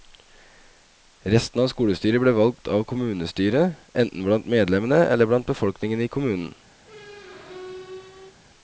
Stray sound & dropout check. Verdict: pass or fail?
fail